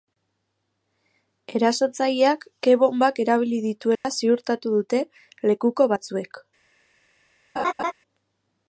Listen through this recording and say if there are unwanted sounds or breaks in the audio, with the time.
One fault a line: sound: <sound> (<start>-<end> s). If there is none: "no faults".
sound: dropout (4.0-4.0 s)
sound: laugh (7.6-7.9 s)